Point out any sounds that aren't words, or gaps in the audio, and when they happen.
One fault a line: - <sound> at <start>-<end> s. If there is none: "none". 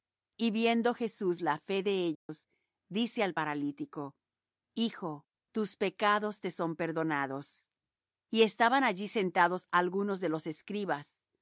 - dropout at 2.1-2.3 s